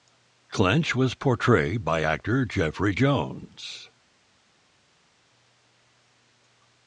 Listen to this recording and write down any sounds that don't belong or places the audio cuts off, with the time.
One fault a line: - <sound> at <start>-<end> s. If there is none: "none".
none